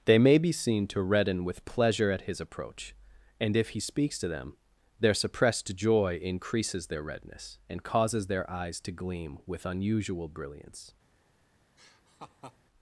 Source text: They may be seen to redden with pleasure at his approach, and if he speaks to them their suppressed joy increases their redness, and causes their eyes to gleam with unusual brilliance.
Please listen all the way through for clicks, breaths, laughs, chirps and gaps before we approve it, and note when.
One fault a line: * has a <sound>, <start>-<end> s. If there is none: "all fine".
* has a laugh, 11.8-12.6 s